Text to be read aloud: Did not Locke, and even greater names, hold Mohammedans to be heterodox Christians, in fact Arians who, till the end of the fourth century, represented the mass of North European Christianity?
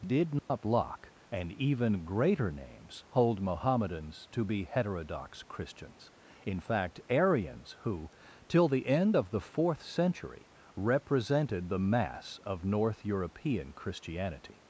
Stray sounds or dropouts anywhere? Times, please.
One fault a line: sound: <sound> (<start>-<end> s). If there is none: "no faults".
sound: dropout (0.4-0.5 s)